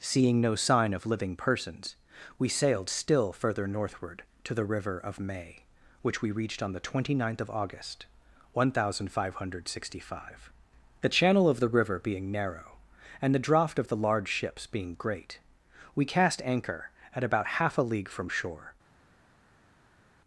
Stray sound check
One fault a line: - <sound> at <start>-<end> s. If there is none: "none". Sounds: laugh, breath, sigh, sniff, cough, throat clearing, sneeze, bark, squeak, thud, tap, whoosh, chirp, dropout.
none